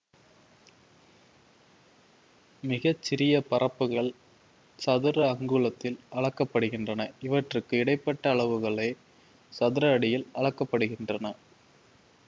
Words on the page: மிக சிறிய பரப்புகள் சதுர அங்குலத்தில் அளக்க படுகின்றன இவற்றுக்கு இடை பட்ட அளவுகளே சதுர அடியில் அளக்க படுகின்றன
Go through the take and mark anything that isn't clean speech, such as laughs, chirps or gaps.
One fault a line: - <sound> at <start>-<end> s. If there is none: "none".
none